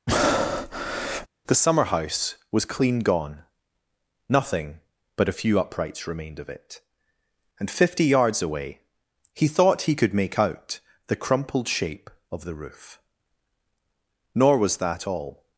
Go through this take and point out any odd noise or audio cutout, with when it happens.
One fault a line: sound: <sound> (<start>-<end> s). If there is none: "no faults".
sound: breath (0.1-1.3 s)